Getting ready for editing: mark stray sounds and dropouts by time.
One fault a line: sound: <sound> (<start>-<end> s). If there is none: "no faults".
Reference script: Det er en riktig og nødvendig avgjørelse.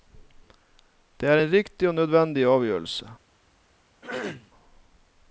sound: throat clearing (4.0-4.5 s)